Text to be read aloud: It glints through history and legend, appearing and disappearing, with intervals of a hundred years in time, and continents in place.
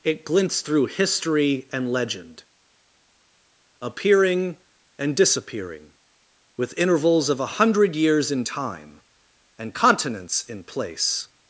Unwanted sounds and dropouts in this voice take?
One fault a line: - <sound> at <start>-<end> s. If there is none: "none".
none